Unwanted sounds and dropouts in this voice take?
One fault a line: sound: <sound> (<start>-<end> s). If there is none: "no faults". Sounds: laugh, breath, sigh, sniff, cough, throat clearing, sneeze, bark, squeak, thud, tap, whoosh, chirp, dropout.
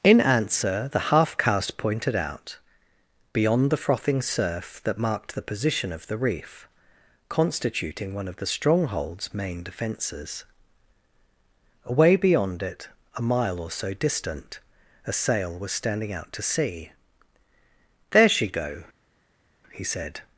no faults